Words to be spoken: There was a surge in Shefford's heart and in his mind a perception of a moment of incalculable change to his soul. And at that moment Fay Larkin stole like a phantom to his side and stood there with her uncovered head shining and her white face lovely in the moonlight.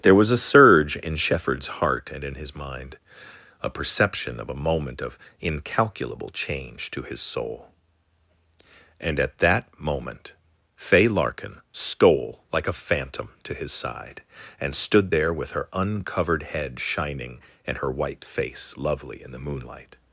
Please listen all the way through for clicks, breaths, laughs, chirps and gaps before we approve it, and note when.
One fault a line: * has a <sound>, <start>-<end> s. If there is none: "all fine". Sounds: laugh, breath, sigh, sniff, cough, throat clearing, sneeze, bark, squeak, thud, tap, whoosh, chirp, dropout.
all fine